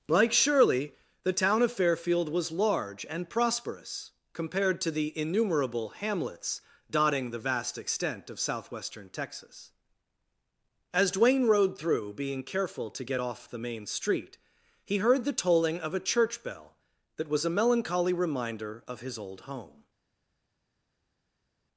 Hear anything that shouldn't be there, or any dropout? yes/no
no